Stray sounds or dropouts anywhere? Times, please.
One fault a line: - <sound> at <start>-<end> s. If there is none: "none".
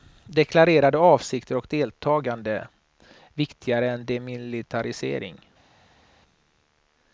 none